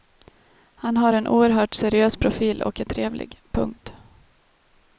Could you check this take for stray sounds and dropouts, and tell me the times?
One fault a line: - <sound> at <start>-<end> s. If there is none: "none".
none